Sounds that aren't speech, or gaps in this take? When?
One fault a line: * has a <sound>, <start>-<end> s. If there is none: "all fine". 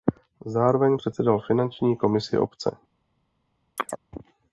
* has a chirp, 3.8-4.0 s